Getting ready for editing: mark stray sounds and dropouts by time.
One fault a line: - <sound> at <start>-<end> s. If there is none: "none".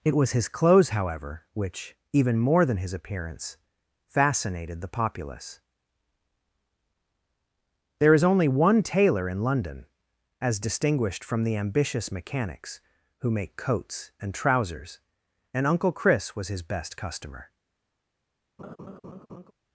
- laugh at 18.6-19.5 s